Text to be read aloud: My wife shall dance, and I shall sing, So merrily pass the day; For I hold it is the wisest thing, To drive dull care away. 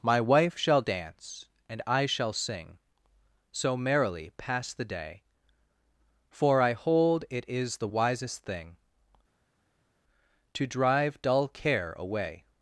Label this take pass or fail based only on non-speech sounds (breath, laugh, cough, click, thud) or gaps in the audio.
pass